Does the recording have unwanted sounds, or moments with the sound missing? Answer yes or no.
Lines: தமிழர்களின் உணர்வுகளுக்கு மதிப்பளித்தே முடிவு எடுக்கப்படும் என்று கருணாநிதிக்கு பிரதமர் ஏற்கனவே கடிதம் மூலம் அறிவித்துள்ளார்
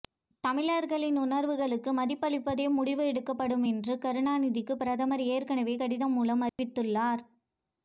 yes